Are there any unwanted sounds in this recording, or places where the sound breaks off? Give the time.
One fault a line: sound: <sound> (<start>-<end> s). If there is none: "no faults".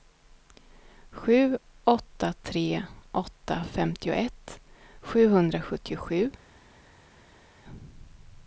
no faults